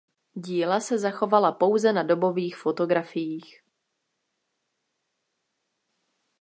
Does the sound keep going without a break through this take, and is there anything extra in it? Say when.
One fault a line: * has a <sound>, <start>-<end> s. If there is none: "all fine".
all fine